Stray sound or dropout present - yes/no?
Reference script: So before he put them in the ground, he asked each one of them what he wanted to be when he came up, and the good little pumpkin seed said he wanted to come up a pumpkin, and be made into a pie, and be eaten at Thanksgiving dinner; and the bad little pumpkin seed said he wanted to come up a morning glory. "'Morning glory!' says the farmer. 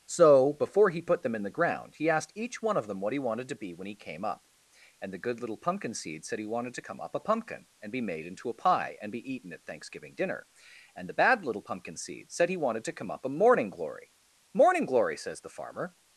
no